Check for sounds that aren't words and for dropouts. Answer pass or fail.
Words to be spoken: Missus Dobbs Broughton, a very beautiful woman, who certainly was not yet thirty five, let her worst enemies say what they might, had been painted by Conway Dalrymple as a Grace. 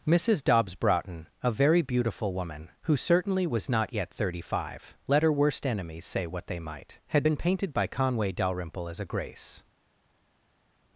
pass